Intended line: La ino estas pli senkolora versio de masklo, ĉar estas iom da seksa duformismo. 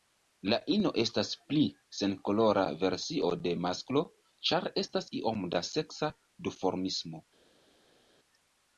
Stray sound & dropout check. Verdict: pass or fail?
pass